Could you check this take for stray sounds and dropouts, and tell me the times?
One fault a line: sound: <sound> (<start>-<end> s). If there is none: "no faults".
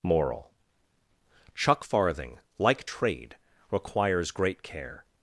no faults